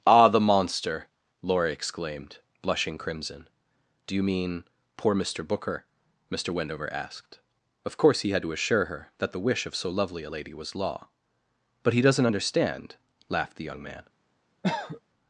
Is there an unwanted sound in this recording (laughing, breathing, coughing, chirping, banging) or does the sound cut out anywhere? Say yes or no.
yes